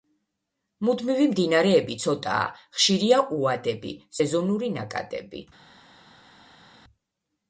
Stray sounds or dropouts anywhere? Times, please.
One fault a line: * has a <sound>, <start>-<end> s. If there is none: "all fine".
all fine